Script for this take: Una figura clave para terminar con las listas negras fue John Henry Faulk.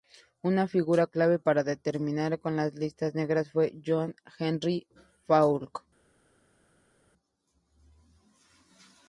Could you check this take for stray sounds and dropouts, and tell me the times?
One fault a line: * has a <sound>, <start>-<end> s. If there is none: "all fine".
all fine